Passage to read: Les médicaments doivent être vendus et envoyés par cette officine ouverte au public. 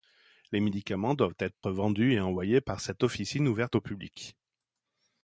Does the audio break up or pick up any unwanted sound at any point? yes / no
yes